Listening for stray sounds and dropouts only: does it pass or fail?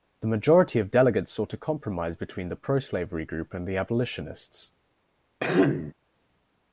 fail